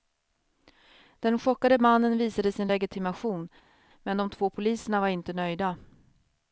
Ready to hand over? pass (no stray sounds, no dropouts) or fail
pass